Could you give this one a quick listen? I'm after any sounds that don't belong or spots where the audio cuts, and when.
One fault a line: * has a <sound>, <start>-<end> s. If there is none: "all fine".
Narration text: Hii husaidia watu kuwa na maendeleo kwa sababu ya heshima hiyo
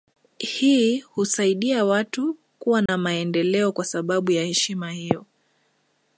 * has a dropout, 2.9-2.9 s